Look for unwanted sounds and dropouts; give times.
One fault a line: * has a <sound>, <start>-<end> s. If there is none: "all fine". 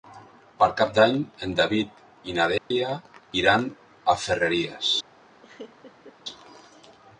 * has a dropout, 2.6-2.7 s
* has a laugh, 5.4-6.2 s